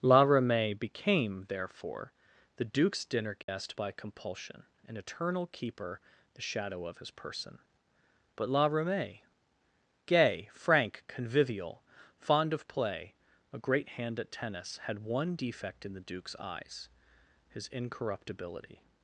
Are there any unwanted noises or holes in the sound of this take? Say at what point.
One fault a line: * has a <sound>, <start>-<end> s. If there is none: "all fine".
* has a dropout, 3.4-3.5 s